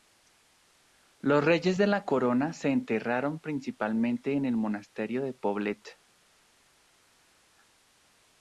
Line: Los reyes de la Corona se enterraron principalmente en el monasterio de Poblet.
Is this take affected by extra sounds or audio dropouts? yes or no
no